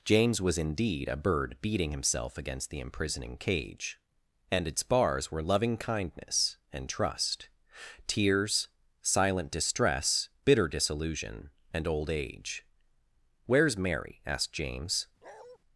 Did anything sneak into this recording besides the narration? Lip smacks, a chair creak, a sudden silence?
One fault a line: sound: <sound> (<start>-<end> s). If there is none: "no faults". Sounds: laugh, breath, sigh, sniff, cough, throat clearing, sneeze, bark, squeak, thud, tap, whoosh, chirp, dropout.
sound: bark (15.2-15.6 s)